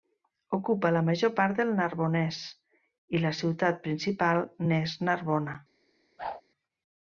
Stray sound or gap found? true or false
true